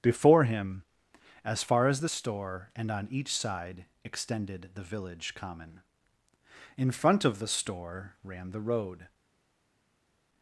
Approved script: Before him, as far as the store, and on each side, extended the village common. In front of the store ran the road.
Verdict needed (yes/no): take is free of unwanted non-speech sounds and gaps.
yes